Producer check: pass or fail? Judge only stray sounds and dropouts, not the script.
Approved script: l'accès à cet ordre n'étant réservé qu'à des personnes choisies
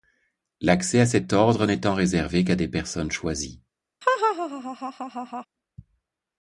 fail